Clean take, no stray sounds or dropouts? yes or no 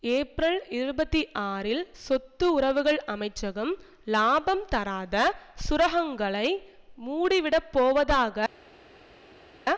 yes